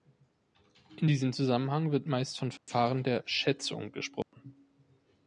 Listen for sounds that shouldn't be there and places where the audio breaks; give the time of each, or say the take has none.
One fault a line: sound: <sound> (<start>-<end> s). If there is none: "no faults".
sound: dropout (2.6-2.7 s)
sound: dropout (4.2-4.3 s)